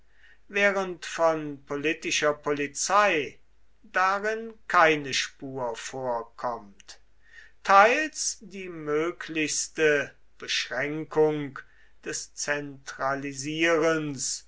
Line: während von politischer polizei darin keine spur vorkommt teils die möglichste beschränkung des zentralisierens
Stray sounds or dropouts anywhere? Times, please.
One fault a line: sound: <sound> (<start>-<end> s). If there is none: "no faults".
no faults